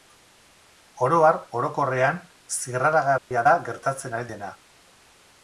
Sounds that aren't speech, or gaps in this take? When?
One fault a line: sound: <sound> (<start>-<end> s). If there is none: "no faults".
sound: dropout (3.2-3.3 s)